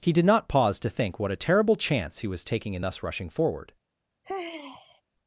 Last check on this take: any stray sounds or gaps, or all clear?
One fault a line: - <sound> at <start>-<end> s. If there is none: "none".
- sigh at 4.2-5.0 s